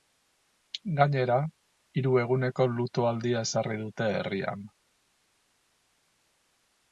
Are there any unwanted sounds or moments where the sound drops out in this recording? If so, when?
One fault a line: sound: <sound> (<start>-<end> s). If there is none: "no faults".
no faults